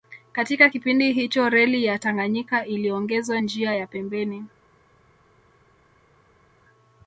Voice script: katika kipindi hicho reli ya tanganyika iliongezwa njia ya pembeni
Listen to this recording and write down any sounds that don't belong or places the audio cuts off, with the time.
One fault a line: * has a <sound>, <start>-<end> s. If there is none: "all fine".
all fine